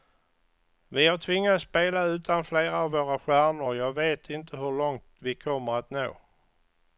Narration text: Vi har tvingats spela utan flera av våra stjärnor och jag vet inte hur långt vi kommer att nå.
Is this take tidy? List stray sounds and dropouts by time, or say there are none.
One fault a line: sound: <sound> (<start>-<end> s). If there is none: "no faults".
no faults